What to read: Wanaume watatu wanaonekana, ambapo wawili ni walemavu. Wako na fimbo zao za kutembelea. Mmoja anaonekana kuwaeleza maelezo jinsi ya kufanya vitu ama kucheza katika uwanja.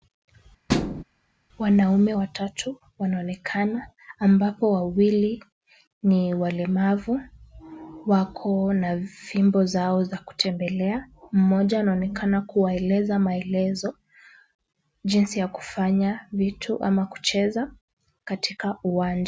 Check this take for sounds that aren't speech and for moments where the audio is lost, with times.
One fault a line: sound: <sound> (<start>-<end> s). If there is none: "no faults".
sound: thud (0.7-1.0 s)